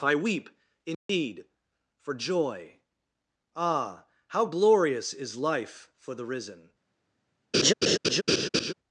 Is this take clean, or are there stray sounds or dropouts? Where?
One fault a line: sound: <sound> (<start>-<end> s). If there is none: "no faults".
sound: dropout (0.9-1.1 s)
sound: laugh (7.5-8.7 s)